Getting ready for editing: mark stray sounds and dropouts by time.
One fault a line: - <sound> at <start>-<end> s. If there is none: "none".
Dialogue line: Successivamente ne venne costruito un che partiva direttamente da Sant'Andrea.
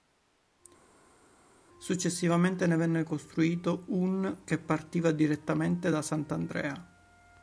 none